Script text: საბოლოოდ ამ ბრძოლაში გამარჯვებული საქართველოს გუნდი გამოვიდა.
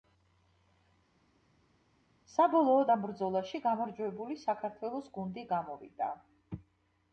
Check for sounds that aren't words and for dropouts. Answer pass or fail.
pass